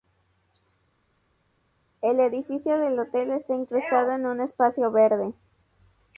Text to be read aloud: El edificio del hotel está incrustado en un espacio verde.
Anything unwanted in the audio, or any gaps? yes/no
no